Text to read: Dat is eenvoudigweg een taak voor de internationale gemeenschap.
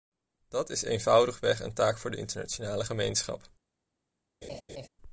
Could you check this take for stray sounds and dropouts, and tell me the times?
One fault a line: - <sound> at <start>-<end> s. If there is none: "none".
- laugh at 4.4-4.9 s